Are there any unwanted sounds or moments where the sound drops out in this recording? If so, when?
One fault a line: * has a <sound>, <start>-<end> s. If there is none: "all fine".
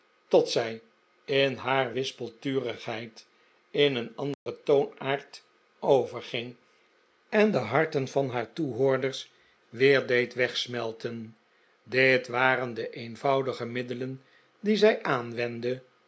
* has a dropout, 4.3-4.5 s